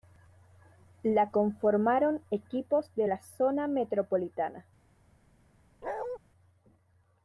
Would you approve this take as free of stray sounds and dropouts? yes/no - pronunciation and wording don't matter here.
no